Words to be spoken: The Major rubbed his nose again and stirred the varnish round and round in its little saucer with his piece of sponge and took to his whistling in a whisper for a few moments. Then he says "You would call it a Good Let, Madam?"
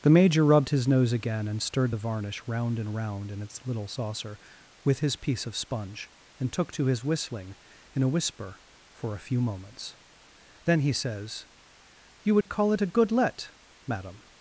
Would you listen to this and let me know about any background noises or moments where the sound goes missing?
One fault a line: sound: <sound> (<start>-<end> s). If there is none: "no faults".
sound: dropout (12.4-12.5 s)